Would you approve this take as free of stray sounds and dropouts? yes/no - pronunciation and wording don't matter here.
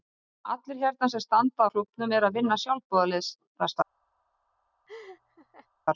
no